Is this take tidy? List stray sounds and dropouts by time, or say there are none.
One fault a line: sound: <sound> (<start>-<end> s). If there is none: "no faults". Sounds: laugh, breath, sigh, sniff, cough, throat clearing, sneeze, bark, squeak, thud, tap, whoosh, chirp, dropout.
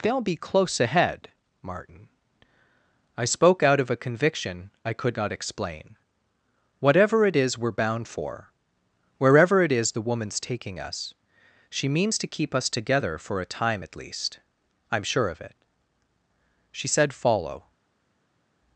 no faults